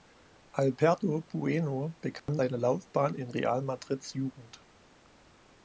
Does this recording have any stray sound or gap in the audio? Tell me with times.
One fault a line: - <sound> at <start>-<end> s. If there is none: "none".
- dropout at 2.2-2.3 s